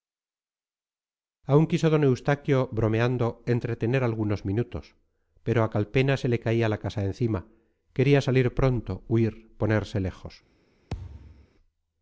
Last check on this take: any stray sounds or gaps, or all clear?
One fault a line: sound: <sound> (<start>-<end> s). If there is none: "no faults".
sound: thud (10.9-11.5 s)